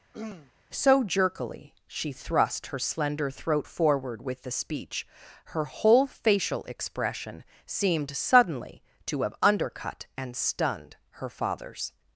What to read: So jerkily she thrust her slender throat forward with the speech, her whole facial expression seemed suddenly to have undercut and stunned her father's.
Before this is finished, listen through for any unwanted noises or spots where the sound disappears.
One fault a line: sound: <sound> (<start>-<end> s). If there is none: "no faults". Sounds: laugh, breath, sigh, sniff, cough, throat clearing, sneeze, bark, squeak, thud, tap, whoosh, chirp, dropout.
sound: throat clearing (0.1-0.5 s)